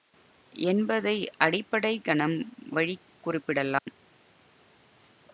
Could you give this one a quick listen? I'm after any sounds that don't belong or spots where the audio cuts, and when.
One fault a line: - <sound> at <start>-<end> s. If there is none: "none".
- dropout at 3.8-3.9 s